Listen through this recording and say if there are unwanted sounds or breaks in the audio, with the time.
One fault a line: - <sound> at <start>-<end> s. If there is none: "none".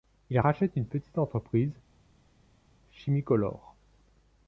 none